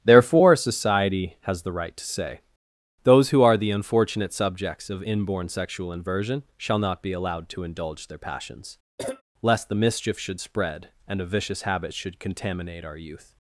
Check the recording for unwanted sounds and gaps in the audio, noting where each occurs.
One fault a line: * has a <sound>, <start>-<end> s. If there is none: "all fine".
* has a cough, 9.0-9.2 s